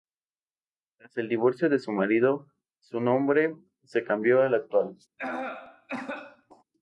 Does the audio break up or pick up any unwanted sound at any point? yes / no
yes